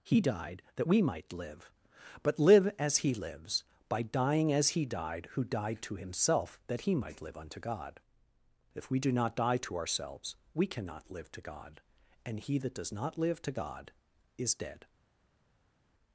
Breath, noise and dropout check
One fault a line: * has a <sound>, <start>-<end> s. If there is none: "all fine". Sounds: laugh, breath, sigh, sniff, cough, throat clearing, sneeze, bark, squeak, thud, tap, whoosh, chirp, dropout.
all fine